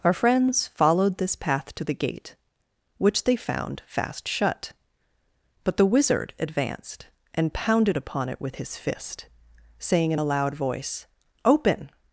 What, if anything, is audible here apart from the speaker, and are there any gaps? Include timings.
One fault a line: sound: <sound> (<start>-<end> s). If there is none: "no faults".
no faults